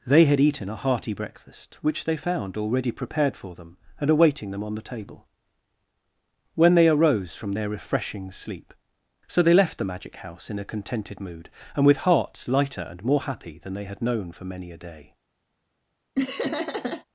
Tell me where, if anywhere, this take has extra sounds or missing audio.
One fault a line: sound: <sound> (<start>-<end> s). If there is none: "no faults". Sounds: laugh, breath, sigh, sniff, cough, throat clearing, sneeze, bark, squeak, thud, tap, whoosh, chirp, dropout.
sound: laugh (16.2-17.1 s)